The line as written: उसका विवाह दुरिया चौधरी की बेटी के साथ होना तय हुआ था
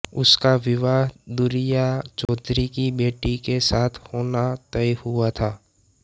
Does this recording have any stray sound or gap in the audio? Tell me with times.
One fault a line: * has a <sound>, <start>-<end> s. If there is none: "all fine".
* has a dropout, 2.3-2.3 s